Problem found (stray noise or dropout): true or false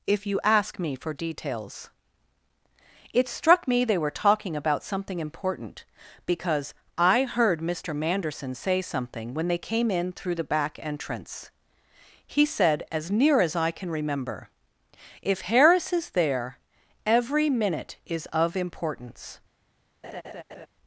true